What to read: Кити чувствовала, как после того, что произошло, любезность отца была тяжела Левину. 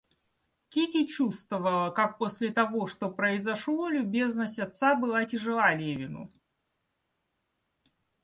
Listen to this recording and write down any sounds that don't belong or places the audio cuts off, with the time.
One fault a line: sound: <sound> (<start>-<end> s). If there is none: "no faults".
no faults